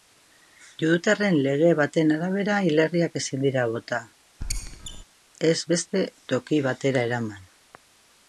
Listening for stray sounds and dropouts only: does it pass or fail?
fail